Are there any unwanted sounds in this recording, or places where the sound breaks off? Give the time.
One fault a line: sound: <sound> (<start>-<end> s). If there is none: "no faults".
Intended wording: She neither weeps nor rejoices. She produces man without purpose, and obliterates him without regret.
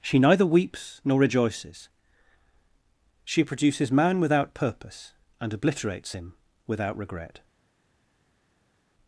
no faults